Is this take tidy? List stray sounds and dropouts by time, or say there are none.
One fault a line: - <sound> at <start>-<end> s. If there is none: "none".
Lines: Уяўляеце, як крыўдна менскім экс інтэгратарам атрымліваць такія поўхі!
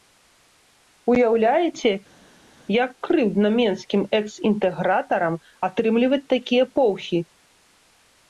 none